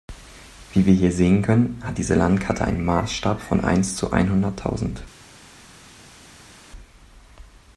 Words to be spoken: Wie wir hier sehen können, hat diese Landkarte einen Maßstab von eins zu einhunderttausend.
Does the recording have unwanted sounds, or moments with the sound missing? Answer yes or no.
no